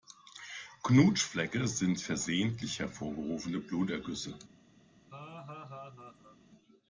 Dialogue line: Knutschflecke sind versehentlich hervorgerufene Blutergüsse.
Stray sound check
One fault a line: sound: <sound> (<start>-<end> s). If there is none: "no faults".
sound: laugh (5.1-6.4 s)